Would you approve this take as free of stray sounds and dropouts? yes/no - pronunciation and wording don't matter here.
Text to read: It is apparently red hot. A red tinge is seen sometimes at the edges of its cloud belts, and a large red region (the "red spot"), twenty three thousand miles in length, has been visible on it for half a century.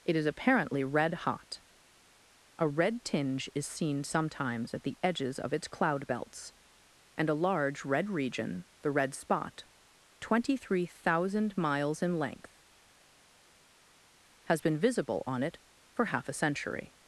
yes